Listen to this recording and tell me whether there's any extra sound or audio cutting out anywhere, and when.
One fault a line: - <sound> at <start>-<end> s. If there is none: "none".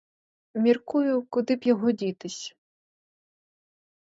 none